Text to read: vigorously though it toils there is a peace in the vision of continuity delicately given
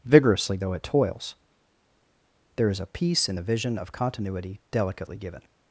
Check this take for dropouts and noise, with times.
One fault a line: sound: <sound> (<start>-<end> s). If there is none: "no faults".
no faults